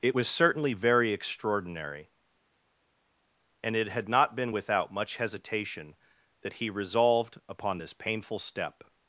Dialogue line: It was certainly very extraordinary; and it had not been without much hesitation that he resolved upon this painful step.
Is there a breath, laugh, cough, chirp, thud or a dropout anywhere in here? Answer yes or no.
no